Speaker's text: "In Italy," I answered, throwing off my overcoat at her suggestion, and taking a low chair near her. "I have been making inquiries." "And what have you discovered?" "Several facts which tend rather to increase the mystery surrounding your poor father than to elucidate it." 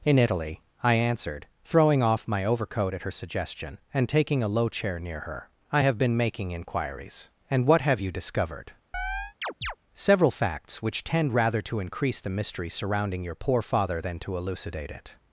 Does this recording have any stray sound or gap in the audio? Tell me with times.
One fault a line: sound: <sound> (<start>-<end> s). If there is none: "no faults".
sound: chirp (8.9-9.8 s)